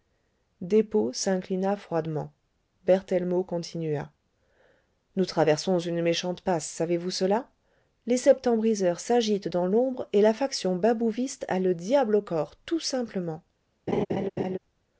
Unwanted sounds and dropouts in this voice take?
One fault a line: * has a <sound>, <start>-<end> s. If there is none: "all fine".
* has a laugh, 13.9-14.6 s